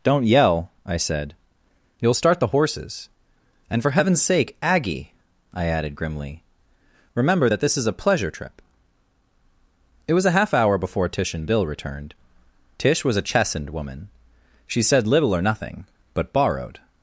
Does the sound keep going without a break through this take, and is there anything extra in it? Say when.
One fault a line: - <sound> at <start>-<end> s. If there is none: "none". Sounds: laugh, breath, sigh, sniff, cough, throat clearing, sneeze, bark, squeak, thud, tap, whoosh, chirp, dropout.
none